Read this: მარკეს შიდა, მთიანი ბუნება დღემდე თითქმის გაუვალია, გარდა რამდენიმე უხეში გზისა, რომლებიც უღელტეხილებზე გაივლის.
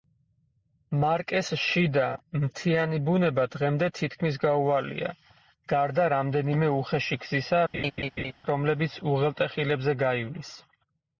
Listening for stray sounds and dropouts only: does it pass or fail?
fail